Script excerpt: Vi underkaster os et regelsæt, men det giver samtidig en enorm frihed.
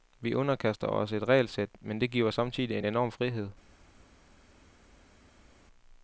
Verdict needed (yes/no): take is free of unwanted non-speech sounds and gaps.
yes